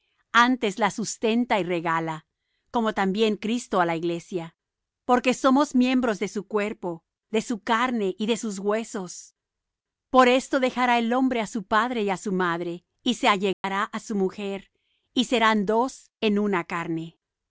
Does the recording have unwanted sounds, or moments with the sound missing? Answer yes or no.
yes